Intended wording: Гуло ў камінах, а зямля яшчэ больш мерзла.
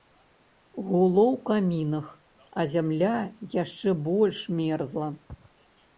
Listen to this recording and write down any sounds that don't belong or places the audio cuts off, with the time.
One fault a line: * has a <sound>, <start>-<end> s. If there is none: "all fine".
all fine